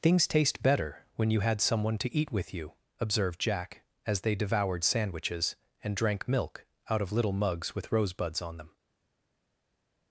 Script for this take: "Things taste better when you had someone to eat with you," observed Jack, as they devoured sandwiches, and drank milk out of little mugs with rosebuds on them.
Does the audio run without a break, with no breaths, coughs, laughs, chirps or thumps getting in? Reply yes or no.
yes